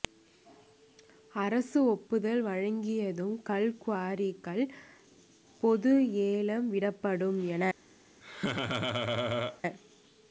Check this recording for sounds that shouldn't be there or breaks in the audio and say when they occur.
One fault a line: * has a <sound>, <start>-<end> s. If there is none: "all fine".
* has a laugh, 8.2-9.6 s